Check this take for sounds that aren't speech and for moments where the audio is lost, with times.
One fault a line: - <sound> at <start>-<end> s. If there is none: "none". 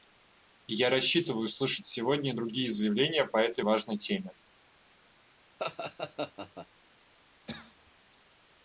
- laugh at 5.6-6.7 s
- cough at 7.5-7.9 s